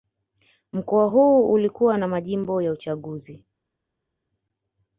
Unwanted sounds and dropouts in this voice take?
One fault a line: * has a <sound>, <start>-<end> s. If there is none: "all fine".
all fine